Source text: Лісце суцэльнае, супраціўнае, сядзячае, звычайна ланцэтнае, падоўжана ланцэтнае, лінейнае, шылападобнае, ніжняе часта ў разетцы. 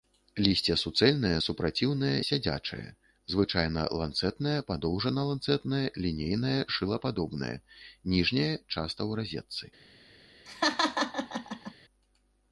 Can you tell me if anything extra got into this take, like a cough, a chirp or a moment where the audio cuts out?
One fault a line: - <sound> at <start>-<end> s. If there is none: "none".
- laugh at 10.5-11.7 s